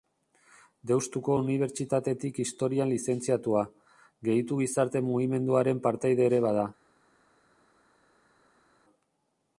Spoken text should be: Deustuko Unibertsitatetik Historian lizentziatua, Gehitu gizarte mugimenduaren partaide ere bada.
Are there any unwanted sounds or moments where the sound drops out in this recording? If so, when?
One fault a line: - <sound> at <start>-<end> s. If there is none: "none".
none